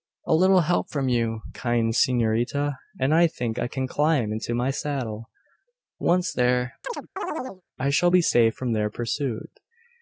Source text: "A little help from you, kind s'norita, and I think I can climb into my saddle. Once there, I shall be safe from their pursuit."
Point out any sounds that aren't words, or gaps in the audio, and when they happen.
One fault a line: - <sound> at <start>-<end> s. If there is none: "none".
- chirp at 6.8-7.6 s